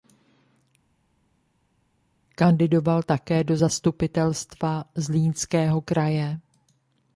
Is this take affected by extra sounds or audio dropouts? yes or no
no